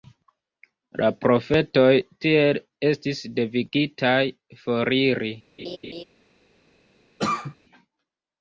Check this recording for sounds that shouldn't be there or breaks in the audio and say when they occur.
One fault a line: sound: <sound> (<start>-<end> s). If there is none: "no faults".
sound: laugh (5.6-6.0 s)
sound: cough (7.2-7.6 s)